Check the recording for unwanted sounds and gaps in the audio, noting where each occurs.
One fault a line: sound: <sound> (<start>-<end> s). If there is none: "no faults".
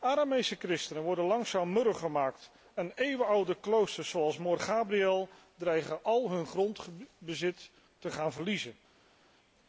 no faults